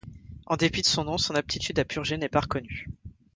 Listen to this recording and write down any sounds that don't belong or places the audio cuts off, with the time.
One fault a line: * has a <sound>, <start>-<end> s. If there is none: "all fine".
all fine